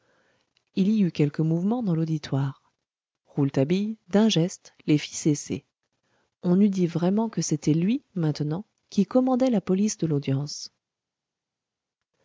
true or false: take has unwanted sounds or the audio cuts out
false